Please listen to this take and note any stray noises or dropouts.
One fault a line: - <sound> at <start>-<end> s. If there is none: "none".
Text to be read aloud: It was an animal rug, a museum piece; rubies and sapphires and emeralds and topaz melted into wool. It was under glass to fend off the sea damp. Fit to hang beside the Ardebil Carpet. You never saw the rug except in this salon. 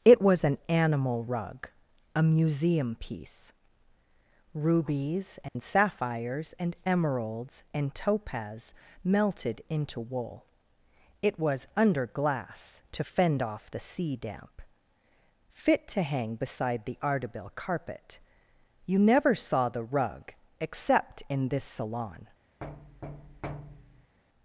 - dropout at 5.5-5.6 s
- thud at 22.6-24.2 s